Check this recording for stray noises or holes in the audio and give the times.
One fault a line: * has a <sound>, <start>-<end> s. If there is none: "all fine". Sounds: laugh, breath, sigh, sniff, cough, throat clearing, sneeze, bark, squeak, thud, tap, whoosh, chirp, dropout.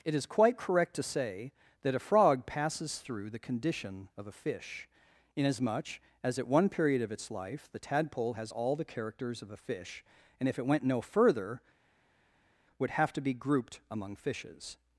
all fine